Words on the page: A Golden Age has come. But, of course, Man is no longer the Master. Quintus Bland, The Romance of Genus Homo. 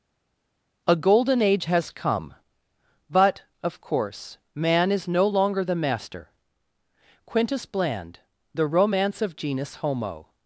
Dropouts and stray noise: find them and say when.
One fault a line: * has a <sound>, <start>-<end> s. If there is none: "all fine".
all fine